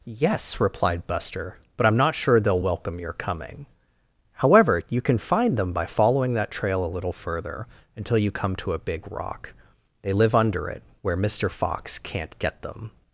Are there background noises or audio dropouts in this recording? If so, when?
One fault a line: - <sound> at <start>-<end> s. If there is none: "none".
none